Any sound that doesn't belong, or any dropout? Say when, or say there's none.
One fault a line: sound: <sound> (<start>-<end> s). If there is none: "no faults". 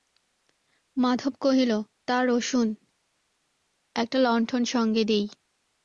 no faults